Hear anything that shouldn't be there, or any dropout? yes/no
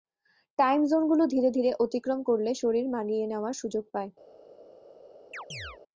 yes